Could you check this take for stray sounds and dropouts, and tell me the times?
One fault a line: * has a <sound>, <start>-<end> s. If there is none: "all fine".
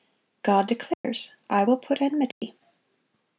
* has a dropout, 0.9-1.0 s
* has a dropout, 2.3-2.4 s